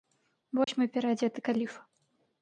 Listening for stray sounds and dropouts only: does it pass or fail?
fail